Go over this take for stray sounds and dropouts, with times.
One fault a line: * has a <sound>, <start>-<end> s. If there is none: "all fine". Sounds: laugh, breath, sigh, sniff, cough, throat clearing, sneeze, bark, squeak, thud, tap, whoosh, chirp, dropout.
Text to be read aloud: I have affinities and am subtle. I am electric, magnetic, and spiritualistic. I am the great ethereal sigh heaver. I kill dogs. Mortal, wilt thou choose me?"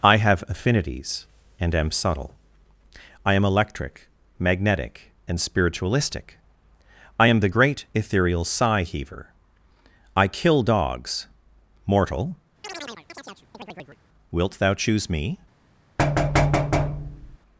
* has a chirp, 12.6-14.0 s
* has a thud, 16.0-17.4 s